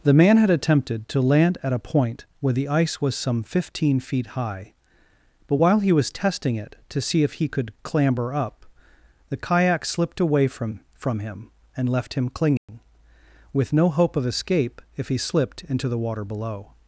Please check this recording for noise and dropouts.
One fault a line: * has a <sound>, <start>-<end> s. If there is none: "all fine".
* has a dropout, 12.6-12.7 s